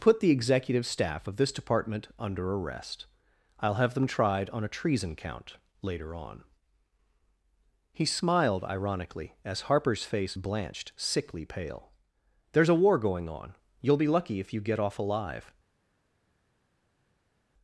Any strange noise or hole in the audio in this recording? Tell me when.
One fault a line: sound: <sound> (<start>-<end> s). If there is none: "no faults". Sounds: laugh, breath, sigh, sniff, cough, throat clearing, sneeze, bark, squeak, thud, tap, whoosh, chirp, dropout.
no faults